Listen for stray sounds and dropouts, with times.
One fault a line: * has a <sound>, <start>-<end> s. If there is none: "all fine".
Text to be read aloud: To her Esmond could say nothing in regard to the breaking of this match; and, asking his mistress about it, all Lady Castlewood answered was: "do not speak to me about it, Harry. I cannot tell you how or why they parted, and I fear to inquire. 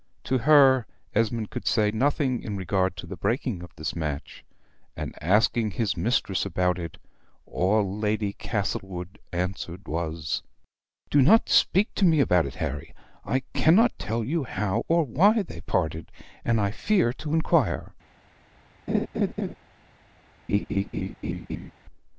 * has a laugh, 18.9-19.5 s
* has a laugh, 20.5-21.7 s